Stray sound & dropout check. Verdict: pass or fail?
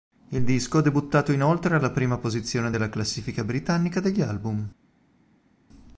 pass